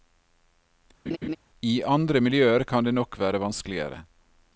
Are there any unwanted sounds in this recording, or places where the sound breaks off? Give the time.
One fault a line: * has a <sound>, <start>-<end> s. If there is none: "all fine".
* has a laugh, 1.1-1.4 s